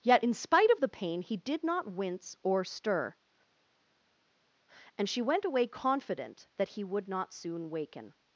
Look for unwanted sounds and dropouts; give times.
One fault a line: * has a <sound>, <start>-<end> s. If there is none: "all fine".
all fine